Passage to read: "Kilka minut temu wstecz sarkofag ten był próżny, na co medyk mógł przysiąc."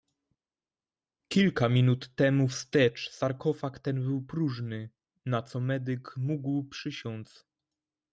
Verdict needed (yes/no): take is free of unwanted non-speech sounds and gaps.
yes